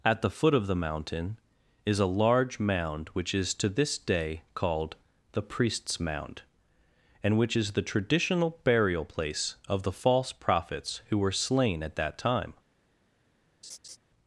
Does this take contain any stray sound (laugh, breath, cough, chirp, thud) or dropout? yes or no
yes